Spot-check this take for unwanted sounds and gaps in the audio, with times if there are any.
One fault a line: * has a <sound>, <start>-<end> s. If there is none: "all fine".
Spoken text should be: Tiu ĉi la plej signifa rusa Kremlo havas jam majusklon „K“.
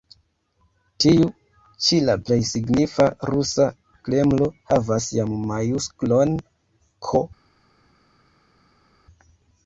all fine